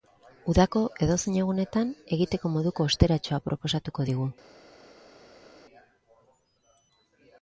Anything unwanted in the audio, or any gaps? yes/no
no